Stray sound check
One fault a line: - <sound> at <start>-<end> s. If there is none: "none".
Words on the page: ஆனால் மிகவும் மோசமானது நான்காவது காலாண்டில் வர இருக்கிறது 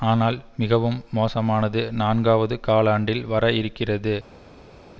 none